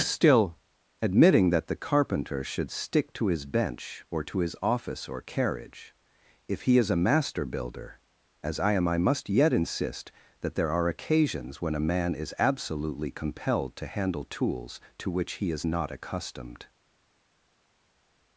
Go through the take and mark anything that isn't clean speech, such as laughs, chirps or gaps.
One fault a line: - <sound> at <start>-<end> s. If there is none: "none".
none